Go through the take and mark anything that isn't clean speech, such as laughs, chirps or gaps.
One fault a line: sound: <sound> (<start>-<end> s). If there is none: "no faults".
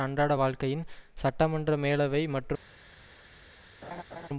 sound: laugh (3.8-4.3 s)